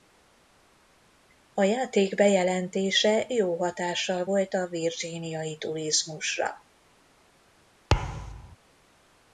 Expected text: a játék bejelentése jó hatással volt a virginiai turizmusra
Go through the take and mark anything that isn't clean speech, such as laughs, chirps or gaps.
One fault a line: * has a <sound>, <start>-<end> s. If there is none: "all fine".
* has a thud, 7.9-8.6 s